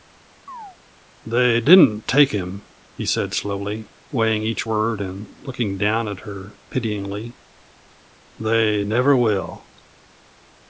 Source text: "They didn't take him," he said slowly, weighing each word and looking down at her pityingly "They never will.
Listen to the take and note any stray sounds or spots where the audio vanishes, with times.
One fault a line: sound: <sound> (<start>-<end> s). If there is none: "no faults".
sound: chirp (0.5-0.8 s)